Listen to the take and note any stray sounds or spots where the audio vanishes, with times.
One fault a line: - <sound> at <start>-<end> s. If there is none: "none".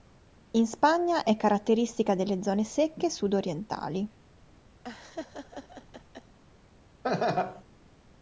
- laugh at 4.8-6.4 s
- laugh at 7.0-7.6 s